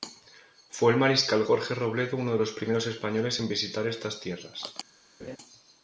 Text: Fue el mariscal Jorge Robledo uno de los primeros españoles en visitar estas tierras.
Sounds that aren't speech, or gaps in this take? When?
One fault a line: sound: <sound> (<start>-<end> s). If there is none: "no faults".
sound: laugh (5.2-5.4 s)